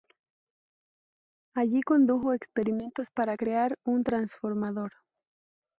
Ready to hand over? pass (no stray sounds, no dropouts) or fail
pass